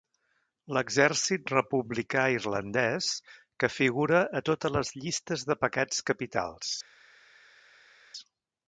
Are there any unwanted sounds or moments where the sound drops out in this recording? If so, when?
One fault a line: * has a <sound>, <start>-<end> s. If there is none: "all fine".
all fine